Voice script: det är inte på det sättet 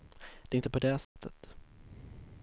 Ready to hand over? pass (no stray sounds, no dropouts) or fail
fail